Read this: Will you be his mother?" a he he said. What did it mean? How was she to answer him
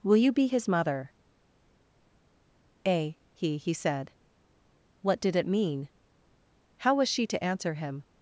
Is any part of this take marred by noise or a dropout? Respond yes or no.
no